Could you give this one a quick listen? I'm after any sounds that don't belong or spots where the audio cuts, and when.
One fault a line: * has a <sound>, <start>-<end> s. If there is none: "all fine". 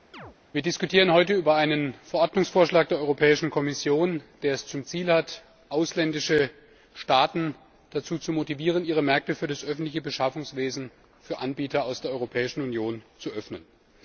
* has a chirp, 0.1-0.4 s